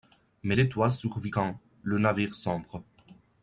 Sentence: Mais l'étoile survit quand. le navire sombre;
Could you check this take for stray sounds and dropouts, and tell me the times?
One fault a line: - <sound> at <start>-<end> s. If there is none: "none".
none